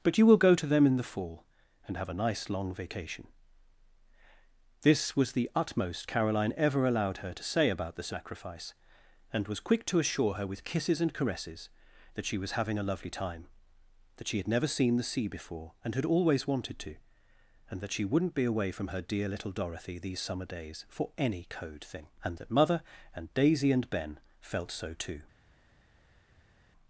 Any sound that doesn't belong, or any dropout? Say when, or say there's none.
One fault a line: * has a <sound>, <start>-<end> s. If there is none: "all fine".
all fine